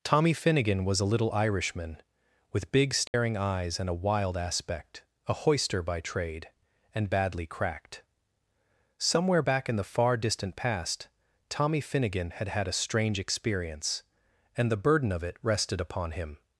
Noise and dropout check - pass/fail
fail